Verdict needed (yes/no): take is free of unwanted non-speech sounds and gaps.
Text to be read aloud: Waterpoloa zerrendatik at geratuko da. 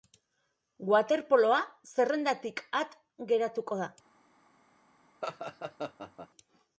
no